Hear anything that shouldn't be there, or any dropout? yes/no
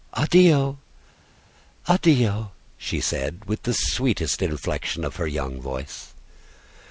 no